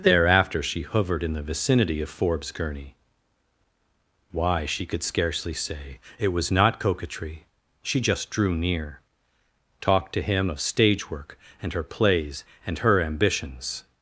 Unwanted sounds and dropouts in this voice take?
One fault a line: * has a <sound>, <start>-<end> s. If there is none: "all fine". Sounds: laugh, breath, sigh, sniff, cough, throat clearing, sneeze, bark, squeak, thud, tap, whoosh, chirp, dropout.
all fine